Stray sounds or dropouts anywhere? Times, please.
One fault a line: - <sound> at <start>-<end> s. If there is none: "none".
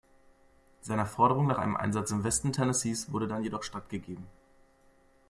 none